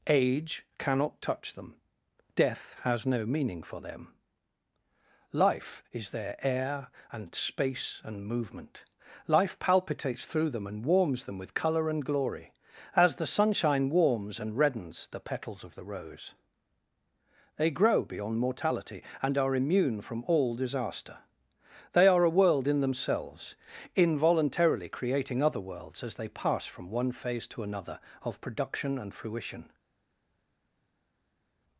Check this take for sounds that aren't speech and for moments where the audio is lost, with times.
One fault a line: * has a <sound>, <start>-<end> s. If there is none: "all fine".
all fine